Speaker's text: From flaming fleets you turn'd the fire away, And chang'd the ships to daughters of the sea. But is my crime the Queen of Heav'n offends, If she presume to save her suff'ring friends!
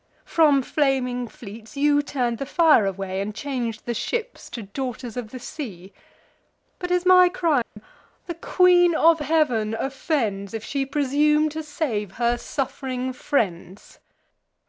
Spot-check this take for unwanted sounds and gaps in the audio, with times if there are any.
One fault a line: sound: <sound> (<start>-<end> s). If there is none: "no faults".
sound: dropout (7.6-7.8 s)